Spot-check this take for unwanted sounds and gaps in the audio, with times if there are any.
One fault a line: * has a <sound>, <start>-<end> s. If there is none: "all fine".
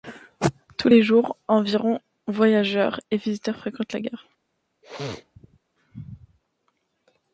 * has a sneeze, 4.8-5.6 s